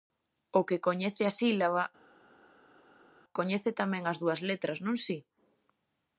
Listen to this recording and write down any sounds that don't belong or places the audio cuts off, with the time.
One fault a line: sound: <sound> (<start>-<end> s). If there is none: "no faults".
no faults